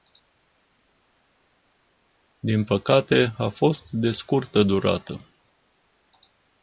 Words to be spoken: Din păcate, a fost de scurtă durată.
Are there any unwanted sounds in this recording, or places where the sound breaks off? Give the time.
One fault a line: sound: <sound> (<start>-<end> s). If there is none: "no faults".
no faults